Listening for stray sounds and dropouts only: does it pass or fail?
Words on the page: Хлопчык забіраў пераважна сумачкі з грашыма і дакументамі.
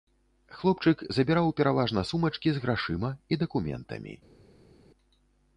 pass